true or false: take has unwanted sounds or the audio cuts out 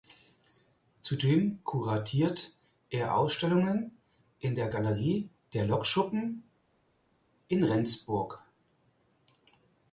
false